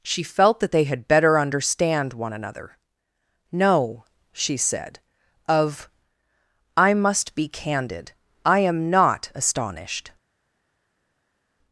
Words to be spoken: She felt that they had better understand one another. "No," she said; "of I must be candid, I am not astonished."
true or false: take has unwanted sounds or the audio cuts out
false